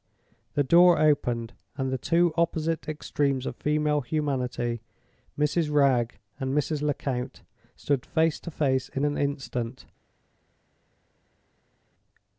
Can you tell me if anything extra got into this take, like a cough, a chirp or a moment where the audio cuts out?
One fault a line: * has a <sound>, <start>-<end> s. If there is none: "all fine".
all fine